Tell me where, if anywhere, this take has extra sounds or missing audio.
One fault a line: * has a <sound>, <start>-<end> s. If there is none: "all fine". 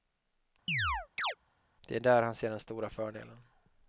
* has a chirp, 0.7-1.4 s